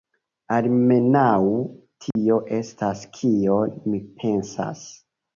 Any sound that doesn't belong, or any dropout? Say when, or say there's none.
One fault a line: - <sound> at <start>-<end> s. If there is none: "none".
- dropout at 2.1-2.2 s